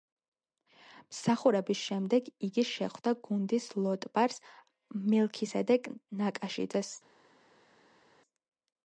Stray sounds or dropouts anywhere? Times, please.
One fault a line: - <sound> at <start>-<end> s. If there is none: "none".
none